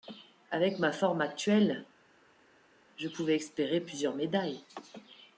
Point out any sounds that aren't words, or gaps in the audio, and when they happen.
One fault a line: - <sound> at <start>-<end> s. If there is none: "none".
none